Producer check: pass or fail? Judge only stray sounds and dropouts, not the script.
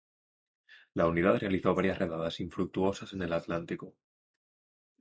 pass